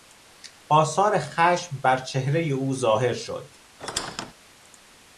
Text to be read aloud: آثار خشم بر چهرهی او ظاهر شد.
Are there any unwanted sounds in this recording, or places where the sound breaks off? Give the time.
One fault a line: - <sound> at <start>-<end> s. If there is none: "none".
- squeak at 3.8-4.3 s